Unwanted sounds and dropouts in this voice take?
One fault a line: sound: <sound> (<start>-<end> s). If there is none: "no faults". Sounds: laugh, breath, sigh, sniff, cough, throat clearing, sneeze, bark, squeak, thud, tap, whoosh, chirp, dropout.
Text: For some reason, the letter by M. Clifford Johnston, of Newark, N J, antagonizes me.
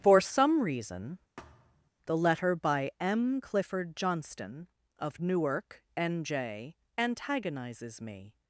sound: thud (1.4-1.9 s)